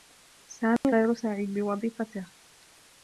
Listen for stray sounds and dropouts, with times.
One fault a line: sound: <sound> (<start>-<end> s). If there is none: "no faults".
sound: dropout (0.8-0.8 s)